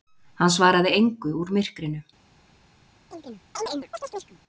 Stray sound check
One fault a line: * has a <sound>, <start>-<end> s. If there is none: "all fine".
* has a chirp, 3.1-4.4 s